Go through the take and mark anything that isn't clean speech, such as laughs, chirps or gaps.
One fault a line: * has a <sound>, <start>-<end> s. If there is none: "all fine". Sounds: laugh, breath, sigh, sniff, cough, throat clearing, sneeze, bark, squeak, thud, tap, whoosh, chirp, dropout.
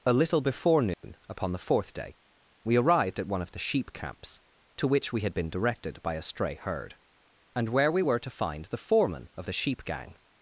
* has a dropout, 0.9-1.0 s